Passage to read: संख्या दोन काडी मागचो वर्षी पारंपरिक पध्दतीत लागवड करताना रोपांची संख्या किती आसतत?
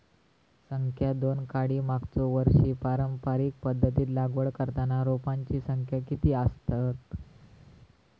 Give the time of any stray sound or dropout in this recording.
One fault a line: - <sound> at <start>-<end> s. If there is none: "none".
none